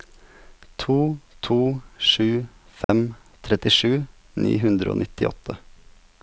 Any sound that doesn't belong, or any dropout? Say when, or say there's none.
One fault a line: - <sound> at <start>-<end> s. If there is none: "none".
- dropout at 2.8-2.9 s